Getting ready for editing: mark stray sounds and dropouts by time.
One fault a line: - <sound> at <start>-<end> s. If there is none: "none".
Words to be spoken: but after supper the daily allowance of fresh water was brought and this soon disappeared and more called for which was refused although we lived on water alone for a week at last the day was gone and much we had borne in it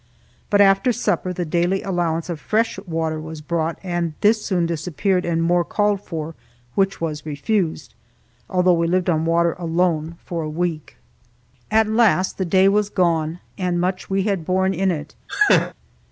- laugh at 15.3-15.7 s